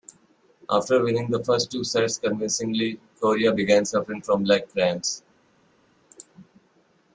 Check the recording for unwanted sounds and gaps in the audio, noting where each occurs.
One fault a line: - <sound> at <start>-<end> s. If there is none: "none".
none